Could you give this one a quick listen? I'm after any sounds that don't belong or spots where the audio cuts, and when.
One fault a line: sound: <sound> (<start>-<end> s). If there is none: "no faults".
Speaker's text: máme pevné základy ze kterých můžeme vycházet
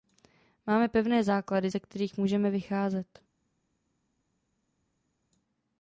no faults